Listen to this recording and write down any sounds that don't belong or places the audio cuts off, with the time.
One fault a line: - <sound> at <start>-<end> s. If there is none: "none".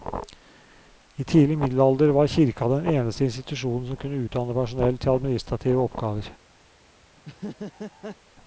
- laugh at 7.2-8.2 s